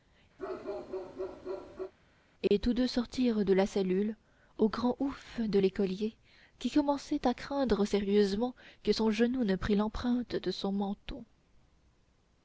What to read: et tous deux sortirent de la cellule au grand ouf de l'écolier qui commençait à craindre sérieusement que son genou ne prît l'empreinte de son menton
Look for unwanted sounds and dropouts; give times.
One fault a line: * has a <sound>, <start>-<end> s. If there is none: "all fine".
* has a bark, 0.4-1.9 s
* has a dropout, 2.5-2.5 s